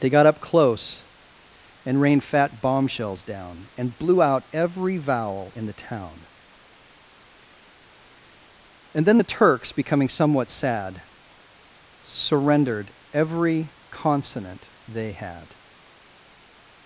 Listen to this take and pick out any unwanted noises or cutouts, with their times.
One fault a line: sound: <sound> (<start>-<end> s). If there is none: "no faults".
no faults